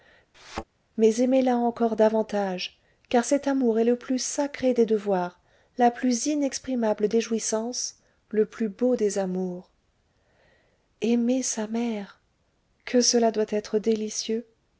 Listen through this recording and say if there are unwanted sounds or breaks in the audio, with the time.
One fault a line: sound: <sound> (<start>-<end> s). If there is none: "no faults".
sound: thud (0.3-0.6 s)